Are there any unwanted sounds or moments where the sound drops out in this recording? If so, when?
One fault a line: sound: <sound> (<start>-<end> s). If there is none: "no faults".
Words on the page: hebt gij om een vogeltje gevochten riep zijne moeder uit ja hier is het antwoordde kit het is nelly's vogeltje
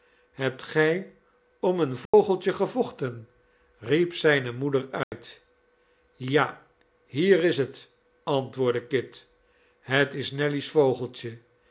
sound: dropout (2.1-2.1 s)
sound: dropout (5.0-5.1 s)